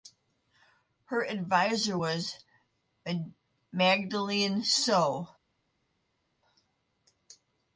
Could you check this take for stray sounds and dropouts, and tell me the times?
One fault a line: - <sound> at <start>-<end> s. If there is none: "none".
none